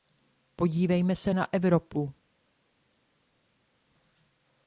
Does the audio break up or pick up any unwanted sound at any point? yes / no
no